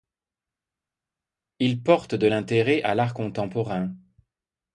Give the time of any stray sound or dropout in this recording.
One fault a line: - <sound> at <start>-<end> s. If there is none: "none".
none